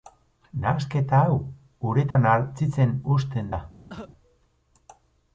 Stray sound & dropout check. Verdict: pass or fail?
fail